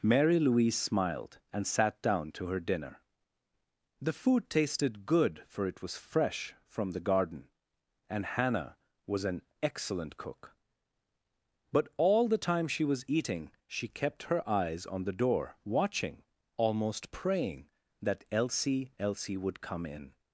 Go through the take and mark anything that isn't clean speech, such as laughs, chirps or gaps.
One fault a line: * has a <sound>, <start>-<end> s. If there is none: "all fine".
all fine